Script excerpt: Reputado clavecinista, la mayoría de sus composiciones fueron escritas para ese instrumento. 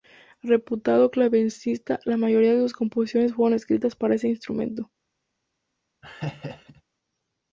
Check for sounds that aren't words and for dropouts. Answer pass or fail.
fail